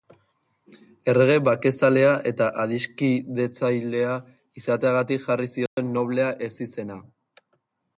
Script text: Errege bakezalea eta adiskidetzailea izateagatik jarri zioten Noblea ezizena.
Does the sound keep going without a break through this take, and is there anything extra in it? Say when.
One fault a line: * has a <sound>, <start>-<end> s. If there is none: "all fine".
* has a dropout, 5.7-5.8 s